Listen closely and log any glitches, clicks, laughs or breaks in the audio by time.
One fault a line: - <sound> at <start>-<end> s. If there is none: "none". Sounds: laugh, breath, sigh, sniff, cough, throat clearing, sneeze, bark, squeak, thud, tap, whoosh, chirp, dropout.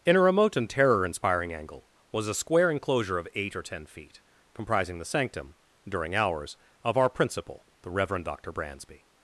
none